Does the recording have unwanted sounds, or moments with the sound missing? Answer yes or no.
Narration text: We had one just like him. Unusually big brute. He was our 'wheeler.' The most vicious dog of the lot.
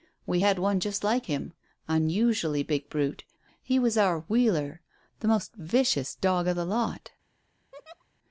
yes